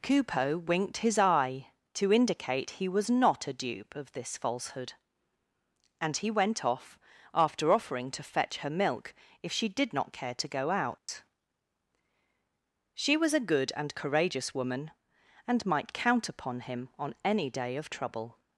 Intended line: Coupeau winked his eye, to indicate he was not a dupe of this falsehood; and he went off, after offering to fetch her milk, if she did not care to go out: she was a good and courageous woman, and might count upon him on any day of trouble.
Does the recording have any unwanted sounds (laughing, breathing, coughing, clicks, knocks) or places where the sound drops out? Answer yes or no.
yes